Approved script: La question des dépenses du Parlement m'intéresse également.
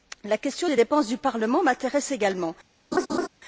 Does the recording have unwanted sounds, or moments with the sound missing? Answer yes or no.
yes